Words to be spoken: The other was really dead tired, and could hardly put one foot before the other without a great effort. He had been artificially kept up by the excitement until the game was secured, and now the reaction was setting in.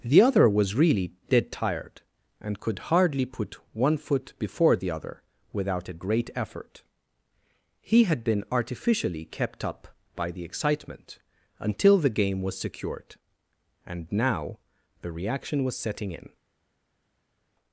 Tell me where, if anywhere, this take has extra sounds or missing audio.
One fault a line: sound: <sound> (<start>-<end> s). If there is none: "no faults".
no faults